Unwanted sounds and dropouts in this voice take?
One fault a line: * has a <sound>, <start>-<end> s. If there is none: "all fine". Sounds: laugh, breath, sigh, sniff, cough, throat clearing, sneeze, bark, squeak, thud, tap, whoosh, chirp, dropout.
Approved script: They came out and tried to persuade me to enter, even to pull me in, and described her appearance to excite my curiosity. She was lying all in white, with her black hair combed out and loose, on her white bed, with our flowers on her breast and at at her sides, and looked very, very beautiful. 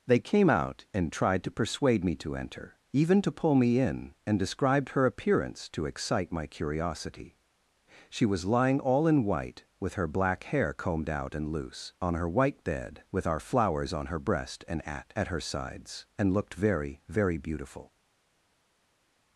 all fine